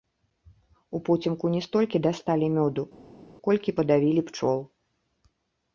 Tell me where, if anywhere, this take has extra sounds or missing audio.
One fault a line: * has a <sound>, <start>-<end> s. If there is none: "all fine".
all fine